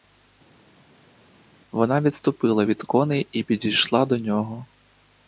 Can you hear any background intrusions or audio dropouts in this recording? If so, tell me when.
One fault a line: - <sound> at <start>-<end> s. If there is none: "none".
none